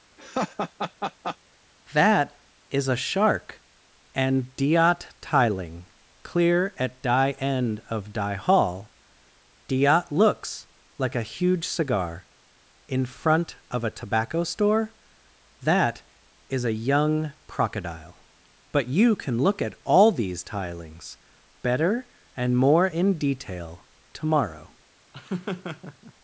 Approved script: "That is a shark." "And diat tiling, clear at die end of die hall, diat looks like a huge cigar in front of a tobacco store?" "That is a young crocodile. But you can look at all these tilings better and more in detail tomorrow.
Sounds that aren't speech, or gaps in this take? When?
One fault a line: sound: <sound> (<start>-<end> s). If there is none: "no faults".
sound: laugh (0.2-1.4 s)
sound: laugh (25.1-26.1 s)